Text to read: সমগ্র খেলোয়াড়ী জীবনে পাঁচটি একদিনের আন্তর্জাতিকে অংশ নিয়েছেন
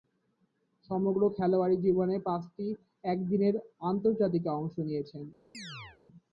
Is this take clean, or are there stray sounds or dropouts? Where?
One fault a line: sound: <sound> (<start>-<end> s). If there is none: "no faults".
sound: chirp (5.5-6.0 s)